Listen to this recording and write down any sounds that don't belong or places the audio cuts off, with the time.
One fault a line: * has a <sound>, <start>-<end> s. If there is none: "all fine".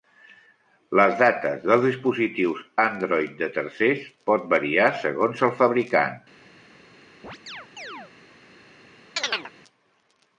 * has a chirp, 7.2-8.1 s
* has a chirp, 9.2-9.5 s